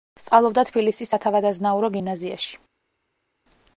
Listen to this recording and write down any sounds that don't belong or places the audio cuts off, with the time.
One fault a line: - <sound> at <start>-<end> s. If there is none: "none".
none